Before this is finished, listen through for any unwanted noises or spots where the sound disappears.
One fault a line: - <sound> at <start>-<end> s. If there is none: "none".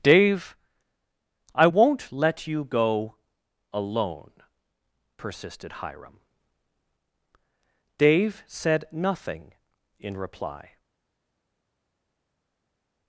none